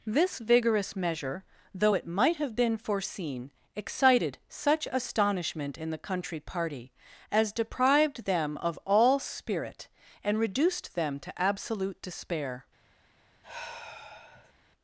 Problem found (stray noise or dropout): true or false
true